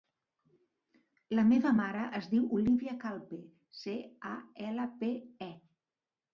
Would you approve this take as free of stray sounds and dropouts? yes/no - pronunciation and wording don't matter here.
yes